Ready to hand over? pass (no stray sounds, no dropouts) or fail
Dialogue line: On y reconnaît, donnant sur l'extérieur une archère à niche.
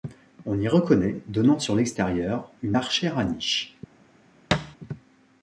fail